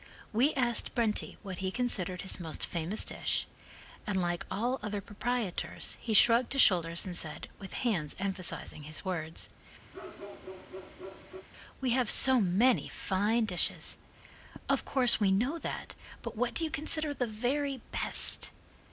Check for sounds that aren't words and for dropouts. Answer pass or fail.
fail